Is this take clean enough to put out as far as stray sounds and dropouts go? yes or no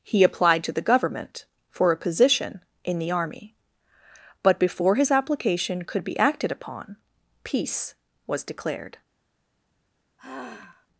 no